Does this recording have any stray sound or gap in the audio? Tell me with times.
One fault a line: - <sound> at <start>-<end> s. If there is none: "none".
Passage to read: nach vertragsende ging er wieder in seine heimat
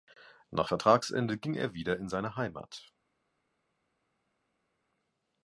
none